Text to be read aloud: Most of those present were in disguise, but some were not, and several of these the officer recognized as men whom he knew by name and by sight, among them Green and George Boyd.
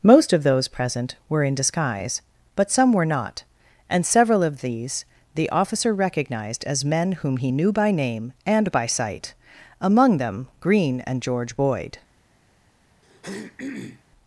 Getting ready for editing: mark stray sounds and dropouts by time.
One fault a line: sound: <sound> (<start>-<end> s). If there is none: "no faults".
sound: throat clearing (13.0-14.0 s)